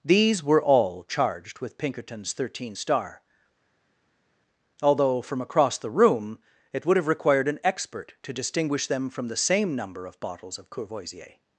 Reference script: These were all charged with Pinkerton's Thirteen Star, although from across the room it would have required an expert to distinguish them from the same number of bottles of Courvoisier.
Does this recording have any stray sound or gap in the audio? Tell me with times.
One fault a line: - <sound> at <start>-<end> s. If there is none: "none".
none